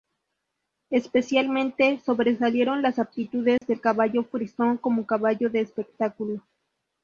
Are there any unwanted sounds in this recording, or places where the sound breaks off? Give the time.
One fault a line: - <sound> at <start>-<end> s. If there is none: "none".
- dropout at 3.6-3.6 s